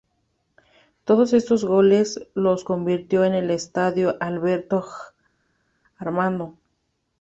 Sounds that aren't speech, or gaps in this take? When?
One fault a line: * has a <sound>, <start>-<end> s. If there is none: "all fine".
all fine